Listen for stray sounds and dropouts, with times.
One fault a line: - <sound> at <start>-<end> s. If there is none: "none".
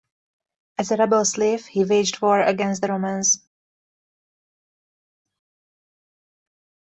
none